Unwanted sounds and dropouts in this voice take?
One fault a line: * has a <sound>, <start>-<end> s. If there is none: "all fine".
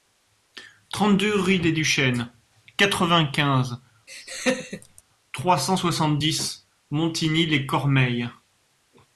* has a laugh, 4.1-5.0 s